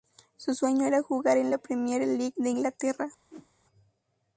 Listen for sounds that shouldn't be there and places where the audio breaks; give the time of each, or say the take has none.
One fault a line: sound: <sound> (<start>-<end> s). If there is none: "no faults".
sound: whoosh (3.3-3.5 s)